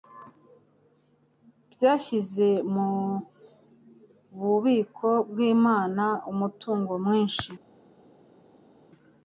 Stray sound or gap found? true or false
false